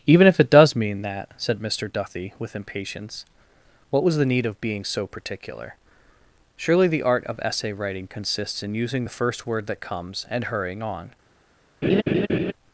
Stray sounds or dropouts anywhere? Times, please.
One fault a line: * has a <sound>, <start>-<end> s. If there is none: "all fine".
* has a laugh, 11.8-12.5 s